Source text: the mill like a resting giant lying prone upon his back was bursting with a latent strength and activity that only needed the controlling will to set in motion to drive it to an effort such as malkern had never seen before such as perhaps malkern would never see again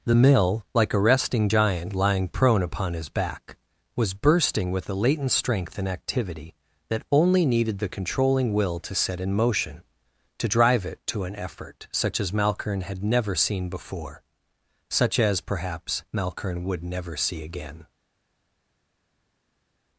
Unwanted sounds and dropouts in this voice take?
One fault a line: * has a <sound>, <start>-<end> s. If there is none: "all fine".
all fine